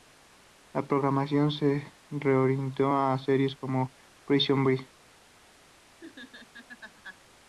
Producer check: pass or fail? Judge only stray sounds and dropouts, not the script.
fail